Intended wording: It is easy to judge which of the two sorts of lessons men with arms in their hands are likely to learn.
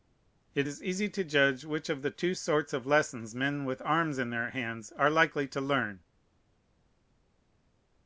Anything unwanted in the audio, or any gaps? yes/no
no